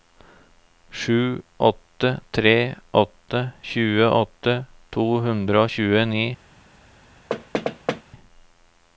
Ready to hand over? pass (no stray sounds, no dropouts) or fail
fail